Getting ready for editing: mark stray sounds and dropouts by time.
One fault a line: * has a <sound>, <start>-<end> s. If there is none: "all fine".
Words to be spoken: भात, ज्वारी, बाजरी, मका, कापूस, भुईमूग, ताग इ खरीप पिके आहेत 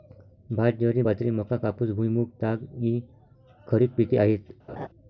* has a laugh, 4.7-4.9 s